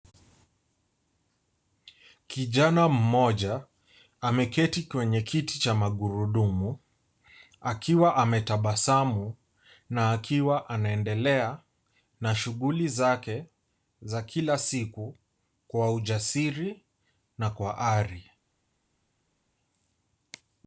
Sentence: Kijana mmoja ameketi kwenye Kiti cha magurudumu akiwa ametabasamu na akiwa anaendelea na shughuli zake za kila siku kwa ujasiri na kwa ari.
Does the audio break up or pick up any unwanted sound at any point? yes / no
no